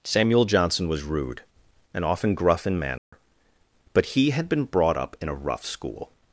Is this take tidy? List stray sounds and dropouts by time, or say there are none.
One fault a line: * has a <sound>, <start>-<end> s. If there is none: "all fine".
* has a dropout, 3.0-3.1 s